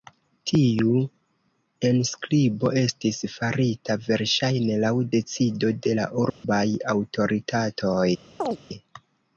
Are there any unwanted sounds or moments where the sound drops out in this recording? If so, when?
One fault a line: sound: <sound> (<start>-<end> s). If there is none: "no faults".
sound: dropout (6.3-6.4 s)
sound: chirp (8.4-8.6 s)